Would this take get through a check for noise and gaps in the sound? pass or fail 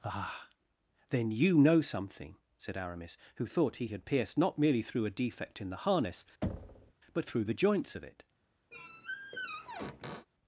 fail